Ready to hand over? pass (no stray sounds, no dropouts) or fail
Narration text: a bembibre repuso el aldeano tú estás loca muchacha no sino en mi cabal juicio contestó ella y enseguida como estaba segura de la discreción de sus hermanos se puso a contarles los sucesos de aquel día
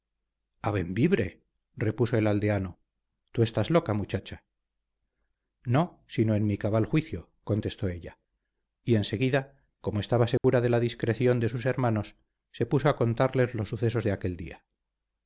fail